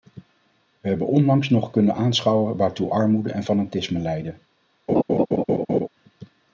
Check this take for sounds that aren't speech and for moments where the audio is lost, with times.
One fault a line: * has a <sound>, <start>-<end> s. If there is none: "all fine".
* has a laugh, 4.9-5.9 s